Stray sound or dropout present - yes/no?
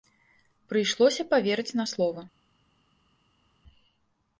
no